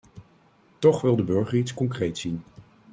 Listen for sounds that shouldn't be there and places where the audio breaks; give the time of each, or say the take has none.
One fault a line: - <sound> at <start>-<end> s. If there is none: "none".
none